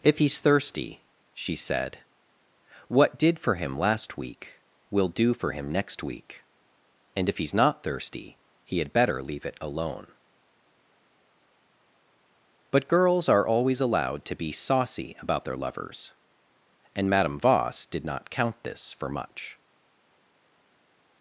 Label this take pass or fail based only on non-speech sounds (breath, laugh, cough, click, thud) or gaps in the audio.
pass